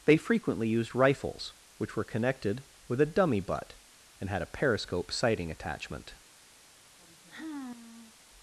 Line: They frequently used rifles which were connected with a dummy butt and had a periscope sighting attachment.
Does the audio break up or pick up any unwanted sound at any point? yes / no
yes